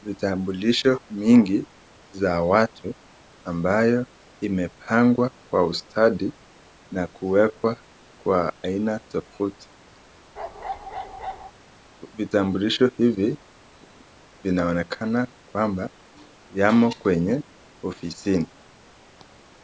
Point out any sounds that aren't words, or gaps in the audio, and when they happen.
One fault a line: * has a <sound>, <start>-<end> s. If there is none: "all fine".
* has a bark, 10.4-11.5 s